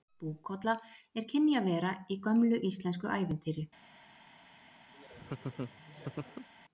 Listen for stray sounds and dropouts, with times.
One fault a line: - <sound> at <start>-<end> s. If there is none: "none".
- laugh at 4.9-6.5 s